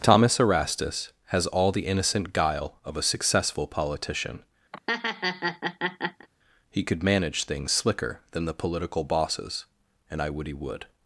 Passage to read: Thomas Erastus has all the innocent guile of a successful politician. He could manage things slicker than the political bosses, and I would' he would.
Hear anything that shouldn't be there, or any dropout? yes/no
yes